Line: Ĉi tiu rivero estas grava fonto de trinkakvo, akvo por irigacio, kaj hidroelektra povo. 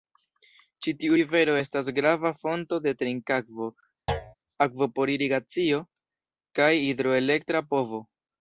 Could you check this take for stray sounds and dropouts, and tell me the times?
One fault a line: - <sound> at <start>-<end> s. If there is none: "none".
- thud at 4.1-4.4 s